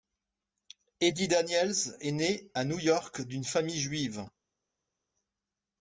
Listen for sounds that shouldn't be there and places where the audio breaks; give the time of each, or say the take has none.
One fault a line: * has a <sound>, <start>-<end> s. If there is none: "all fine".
all fine